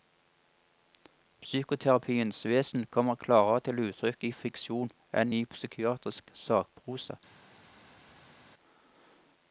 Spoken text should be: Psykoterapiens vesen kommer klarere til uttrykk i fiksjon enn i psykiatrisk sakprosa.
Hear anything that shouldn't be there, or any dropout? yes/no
no